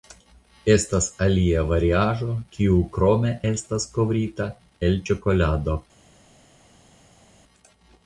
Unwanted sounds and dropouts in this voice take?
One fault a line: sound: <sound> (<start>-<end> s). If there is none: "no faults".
no faults